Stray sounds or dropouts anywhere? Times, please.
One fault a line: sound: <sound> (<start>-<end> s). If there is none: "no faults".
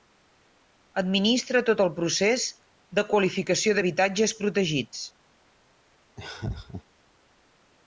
sound: laugh (6.2-6.8 s)